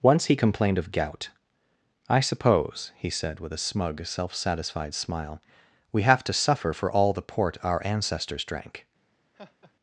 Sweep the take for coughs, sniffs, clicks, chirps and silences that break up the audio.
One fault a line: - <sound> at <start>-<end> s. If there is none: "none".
- laugh at 9.3-9.7 s